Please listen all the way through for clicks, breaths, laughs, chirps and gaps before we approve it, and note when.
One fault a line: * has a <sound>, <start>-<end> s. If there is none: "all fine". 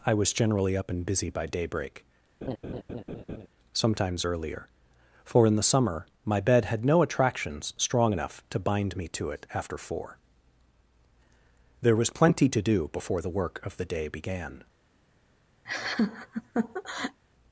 * has a laugh, 2.4-3.5 s
* has a laugh, 15.6-17.2 s